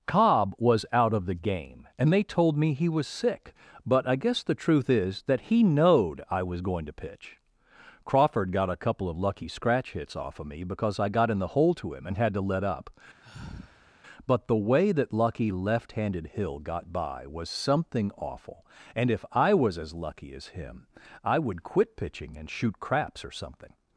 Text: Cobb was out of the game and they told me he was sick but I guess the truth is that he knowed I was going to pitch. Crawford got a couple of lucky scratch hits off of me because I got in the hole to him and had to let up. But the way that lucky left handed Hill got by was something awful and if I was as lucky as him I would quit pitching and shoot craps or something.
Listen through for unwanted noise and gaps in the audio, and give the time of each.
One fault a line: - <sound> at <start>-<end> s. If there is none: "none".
- sigh at 13.2-13.9 s